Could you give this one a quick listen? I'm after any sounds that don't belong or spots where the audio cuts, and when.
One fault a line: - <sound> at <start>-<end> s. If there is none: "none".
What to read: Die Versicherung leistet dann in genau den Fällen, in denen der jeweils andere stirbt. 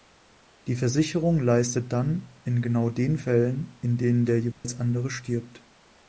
- dropout at 4.5-4.6 s